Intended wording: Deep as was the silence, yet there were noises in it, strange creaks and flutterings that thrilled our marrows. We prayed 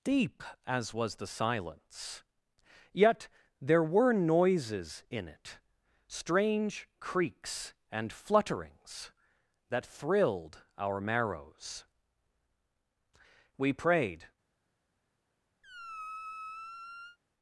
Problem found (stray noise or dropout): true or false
true